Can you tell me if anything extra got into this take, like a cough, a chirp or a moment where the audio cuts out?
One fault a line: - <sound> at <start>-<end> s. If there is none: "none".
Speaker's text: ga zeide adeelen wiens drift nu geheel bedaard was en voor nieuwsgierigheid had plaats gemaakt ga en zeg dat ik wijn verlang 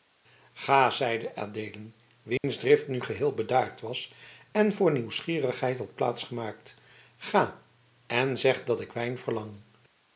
- dropout at 2.4-2.4 s